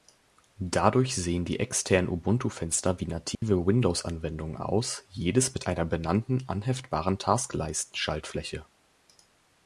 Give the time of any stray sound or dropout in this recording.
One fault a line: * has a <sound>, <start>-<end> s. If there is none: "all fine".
* has a dropout, 3.3-3.4 s